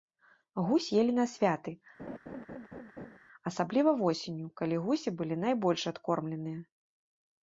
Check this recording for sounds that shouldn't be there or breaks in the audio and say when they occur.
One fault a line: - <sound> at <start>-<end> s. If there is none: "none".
- laugh at 2.0-3.2 s